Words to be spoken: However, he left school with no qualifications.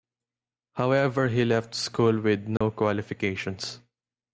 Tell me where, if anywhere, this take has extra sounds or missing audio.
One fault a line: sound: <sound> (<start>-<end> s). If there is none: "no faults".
sound: dropout (2.6-2.6 s)